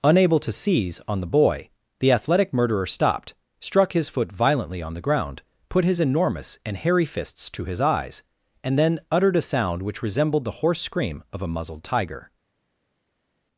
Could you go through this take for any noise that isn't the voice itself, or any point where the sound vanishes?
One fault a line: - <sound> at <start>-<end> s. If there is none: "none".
none